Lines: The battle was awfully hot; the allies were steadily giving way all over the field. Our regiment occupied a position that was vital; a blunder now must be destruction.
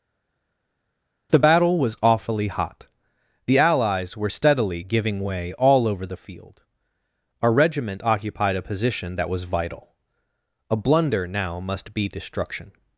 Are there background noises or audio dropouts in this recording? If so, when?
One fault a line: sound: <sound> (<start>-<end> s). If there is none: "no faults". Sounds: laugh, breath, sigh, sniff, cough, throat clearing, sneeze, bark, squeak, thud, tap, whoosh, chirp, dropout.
no faults